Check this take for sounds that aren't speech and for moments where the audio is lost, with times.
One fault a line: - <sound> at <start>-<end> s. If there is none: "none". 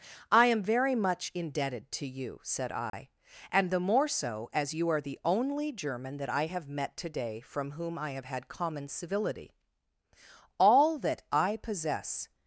- dropout at 2.9-2.9 s